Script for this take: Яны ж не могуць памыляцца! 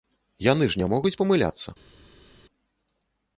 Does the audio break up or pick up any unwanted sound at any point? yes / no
no